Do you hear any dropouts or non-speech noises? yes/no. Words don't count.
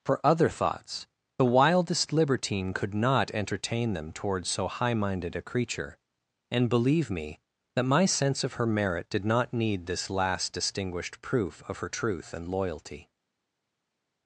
no